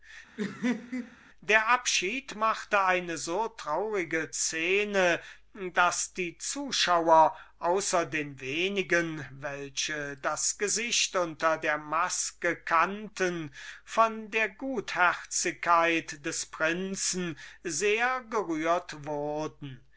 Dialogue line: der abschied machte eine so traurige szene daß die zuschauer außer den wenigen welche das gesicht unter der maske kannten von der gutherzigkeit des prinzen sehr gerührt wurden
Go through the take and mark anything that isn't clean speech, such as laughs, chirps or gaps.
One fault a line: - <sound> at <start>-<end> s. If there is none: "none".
- laugh at 0.4-1.2 s